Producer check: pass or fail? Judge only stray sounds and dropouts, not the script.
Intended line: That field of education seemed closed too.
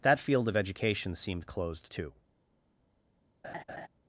fail